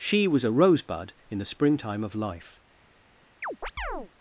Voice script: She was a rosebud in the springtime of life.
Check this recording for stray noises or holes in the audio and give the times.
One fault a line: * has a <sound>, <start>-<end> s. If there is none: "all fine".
* has a chirp, 3.4-4.1 s